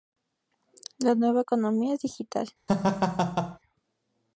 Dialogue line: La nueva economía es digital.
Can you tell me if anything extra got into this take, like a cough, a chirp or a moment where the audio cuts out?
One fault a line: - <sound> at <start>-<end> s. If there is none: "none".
- laugh at 2.7-3.6 s